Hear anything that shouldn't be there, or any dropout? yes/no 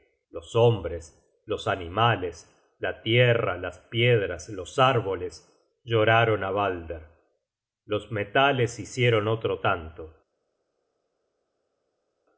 no